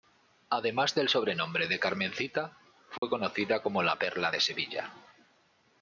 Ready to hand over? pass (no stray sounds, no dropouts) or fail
fail